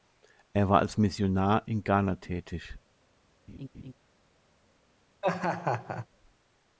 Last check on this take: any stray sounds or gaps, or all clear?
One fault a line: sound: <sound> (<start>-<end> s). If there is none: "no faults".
sound: laugh (3.5-3.9 s)
sound: laugh (5.2-6.1 s)